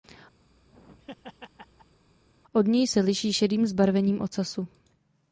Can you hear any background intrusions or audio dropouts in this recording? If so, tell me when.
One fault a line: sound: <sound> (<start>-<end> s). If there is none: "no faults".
sound: laugh (0.4-2.0 s)